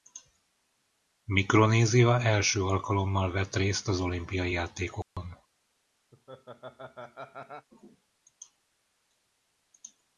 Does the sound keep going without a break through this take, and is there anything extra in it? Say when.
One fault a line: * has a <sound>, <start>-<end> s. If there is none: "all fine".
* has a dropout, 5.0-5.2 s
* has a laugh, 6.1-7.7 s